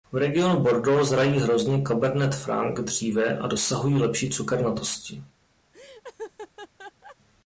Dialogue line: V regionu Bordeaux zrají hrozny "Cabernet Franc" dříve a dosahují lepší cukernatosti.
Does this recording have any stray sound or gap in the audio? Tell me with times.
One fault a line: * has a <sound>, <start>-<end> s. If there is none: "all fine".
* has a laugh, 5.7-7.2 s